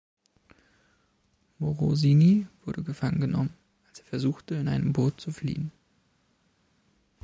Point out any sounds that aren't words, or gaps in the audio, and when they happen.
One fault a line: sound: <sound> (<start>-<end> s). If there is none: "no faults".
no faults